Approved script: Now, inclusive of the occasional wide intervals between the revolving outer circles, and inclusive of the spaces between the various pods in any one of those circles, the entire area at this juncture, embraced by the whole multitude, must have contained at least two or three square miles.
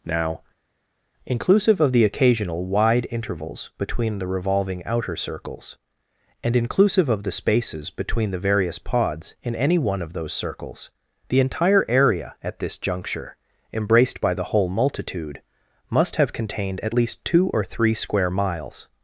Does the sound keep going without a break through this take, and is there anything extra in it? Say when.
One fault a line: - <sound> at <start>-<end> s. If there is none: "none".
none